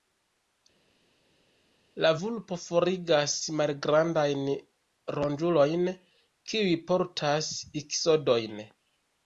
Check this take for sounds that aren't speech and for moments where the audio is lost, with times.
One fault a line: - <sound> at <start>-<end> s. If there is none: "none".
none